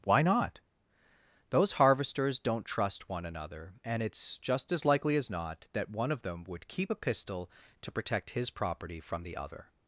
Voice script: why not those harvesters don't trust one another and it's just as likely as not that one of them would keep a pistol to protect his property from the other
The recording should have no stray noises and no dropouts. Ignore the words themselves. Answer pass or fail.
pass